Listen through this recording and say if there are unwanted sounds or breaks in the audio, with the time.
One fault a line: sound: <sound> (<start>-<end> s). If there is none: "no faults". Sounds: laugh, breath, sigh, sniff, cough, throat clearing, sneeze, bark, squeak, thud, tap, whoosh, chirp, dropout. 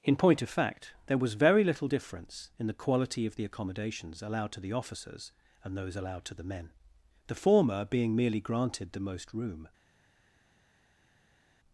no faults